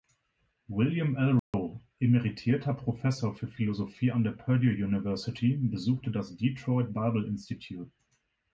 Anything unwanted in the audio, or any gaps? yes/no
yes